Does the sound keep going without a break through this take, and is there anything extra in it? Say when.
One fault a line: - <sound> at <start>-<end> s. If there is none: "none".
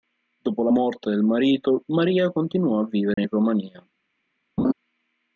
- dropout at 3.1-3.2 s
- laugh at 4.6-4.7 s